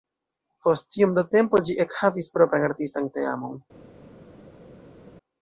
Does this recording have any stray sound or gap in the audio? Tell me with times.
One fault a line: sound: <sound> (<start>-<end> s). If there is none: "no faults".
no faults